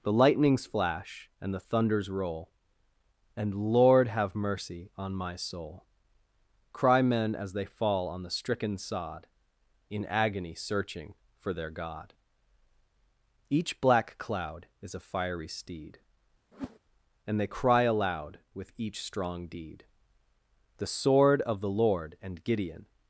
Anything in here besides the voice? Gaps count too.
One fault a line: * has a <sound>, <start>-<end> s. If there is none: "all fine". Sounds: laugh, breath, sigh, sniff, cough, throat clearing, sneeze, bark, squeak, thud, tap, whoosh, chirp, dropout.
* has a whoosh, 16.5-16.8 s